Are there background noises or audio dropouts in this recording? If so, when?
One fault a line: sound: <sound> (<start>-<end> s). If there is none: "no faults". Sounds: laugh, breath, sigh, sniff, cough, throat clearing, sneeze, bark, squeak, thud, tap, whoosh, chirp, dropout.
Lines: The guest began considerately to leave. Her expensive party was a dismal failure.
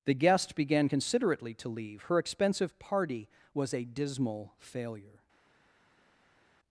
no faults